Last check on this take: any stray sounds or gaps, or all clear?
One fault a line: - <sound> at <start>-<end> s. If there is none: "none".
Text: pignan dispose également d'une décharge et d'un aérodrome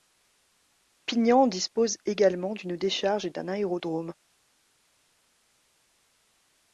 none